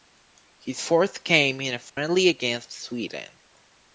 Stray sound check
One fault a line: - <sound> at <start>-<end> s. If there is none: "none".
- dropout at 1.9-2.0 s